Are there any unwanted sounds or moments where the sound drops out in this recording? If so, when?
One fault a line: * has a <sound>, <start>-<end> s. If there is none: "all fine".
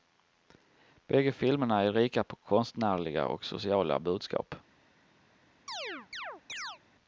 * has a chirp, 5.7-6.8 s